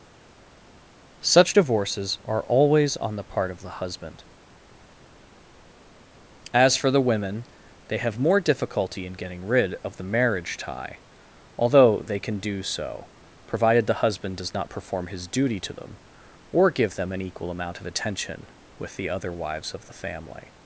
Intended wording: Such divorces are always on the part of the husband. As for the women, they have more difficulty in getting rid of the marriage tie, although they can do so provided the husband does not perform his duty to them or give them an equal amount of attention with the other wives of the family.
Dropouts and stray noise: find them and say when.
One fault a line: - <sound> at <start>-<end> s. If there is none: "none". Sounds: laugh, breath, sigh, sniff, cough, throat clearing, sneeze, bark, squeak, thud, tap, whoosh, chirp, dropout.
none